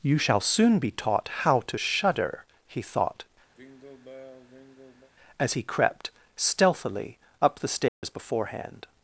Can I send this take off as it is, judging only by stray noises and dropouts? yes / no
no